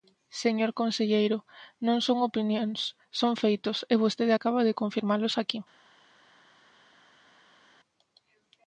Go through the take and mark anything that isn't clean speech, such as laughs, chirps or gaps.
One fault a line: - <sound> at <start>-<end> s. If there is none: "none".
none